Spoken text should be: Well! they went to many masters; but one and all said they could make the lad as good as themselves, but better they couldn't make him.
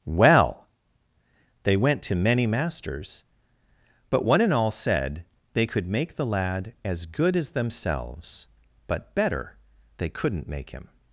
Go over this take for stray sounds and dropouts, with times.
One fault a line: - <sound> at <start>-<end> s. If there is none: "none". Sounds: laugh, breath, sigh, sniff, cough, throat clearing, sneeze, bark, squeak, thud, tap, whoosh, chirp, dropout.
none